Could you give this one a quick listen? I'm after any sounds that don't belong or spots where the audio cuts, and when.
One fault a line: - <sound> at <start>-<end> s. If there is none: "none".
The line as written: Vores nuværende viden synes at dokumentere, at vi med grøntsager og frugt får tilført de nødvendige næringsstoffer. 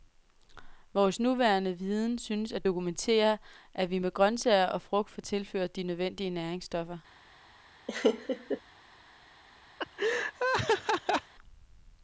- laugh at 7.9-8.6 s
- laugh at 9.8-11.3 s